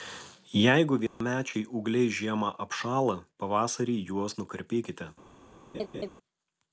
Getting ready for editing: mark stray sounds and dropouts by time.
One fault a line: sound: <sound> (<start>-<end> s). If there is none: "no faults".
sound: dropout (1.1-1.2 s)
sound: laugh (5.7-6.1 s)